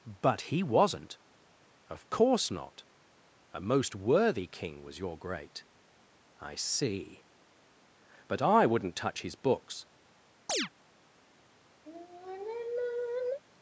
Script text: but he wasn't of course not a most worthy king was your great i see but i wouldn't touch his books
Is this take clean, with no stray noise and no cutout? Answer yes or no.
no